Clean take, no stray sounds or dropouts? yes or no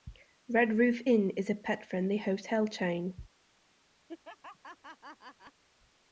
no